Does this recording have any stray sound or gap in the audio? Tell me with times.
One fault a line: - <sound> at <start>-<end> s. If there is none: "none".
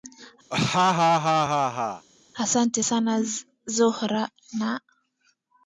- laugh at 0.5-2.1 s